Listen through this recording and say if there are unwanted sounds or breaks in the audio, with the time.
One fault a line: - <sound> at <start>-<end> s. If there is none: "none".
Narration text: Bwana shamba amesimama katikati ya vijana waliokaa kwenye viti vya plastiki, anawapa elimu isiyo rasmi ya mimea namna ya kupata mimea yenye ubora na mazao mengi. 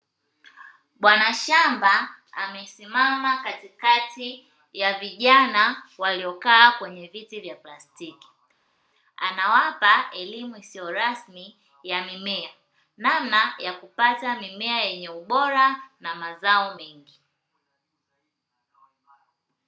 none